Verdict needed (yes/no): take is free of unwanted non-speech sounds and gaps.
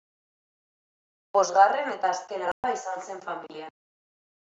no